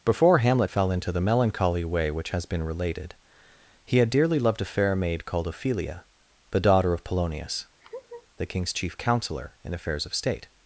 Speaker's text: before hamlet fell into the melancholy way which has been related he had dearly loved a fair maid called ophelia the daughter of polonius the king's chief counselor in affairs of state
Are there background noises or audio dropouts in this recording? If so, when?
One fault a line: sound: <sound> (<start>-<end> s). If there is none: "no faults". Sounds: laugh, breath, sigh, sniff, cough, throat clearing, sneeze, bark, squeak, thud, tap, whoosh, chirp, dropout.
sound: laugh (7.8-8.3 s)